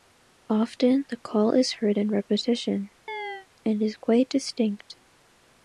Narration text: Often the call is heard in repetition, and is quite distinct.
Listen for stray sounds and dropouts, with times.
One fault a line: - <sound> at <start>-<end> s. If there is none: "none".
- chirp at 3.1-3.5 s